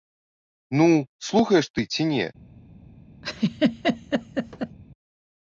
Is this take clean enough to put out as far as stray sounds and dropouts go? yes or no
no